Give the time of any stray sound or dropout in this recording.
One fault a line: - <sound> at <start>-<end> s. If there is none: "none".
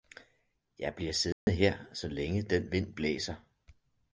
- dropout at 1.3-1.5 s